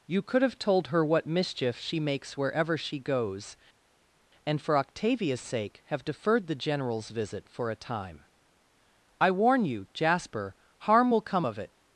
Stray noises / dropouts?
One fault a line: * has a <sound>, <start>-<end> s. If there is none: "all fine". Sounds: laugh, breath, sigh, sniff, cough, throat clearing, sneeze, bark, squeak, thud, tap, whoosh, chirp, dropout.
all fine